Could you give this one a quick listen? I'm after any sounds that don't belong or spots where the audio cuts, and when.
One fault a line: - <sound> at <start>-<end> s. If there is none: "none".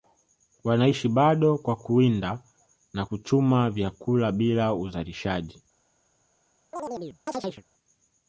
- chirp at 6.7-7.6 s